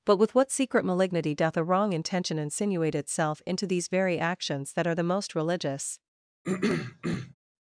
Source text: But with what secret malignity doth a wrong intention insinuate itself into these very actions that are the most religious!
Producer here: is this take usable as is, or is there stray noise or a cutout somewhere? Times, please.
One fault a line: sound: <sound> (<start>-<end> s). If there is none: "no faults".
sound: throat clearing (6.4-7.3 s)